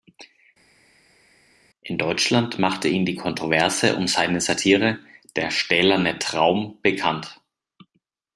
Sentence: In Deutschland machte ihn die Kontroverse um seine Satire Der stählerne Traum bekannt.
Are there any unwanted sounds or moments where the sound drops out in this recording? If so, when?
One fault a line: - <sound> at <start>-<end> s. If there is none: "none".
none